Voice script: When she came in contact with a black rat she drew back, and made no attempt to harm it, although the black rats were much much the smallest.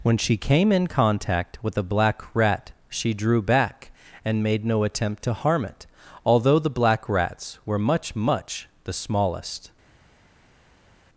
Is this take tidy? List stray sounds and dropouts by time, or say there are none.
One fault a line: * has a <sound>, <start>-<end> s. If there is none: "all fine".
all fine